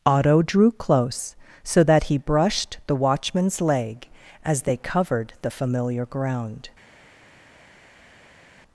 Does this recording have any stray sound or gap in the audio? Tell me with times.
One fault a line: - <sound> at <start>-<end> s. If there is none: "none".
none